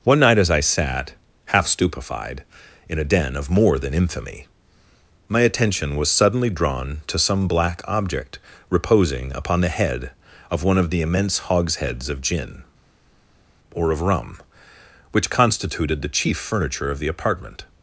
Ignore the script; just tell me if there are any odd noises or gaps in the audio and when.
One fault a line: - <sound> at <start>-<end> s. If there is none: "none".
none